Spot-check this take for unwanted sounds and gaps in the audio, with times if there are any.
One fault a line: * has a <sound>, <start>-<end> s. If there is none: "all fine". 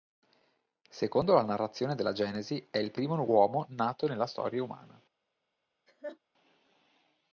* has a laugh, 5.9-6.2 s